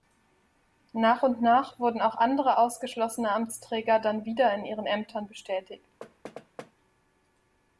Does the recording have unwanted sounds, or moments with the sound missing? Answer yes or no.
yes